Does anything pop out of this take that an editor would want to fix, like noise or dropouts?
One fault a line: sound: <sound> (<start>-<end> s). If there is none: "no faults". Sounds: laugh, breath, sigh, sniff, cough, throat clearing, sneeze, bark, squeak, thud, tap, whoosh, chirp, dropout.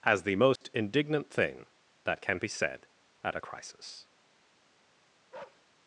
sound: dropout (0.6-0.6 s)
sound: bark (5.3-5.7 s)